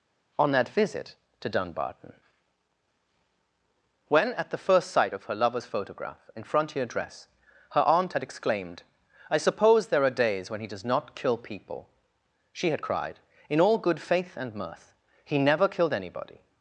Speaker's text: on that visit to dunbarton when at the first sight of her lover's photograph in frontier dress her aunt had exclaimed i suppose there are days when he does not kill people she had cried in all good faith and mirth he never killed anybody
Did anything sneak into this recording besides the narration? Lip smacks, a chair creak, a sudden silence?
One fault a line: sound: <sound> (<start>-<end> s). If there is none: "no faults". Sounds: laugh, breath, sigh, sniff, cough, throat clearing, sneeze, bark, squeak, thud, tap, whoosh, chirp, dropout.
no faults